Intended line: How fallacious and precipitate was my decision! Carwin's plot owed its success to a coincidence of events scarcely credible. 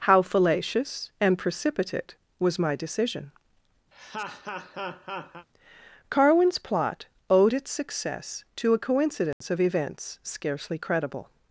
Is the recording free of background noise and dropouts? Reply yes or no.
no